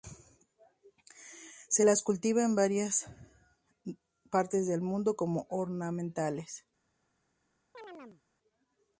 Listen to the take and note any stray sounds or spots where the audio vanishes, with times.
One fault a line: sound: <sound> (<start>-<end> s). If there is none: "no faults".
sound: chirp (7.7-8.2 s)